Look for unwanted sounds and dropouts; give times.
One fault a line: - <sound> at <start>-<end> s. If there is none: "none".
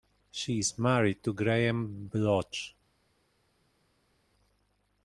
none